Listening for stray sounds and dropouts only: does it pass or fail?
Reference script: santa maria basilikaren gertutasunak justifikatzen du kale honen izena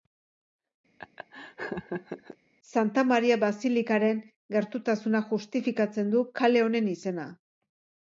fail